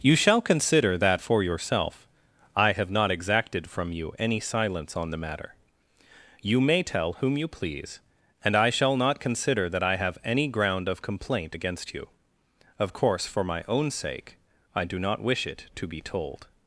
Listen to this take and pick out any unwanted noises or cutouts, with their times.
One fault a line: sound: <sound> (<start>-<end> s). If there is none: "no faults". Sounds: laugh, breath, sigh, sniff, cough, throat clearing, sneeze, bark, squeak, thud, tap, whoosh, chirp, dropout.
no faults